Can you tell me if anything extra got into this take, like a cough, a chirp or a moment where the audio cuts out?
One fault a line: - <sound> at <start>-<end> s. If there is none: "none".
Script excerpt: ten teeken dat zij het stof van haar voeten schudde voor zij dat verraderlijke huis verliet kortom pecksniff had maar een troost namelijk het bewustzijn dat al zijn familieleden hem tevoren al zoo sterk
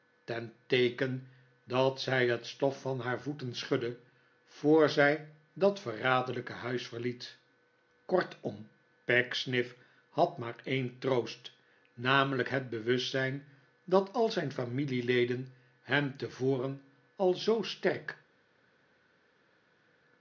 none